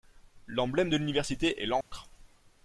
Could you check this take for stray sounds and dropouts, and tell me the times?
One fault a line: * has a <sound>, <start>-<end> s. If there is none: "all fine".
* has a dropout, 1.8-1.9 s